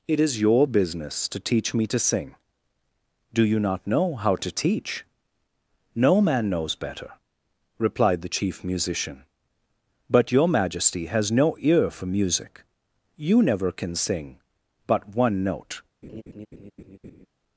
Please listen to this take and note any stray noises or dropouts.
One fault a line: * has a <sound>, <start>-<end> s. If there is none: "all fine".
* has a laugh, 16.0-17.3 s